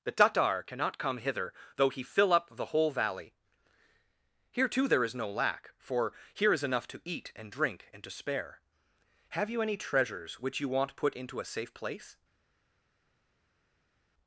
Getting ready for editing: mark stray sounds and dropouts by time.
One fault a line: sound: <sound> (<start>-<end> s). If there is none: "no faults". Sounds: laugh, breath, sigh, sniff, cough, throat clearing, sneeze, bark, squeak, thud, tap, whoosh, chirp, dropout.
no faults